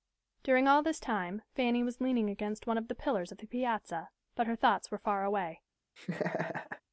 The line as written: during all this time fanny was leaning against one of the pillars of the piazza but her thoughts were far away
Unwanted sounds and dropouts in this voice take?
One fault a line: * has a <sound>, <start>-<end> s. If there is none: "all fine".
* has a laugh, 6.0-6.8 s